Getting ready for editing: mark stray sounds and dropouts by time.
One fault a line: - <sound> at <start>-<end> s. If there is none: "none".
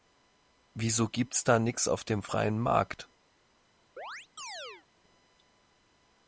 - chirp at 4.0-4.9 s